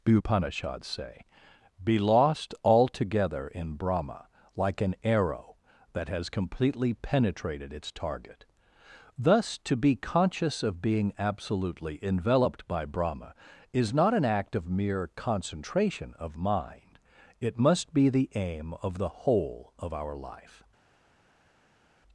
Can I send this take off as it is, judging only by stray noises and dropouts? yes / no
yes